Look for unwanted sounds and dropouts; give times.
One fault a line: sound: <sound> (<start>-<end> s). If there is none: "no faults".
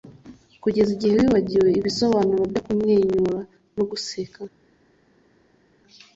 no faults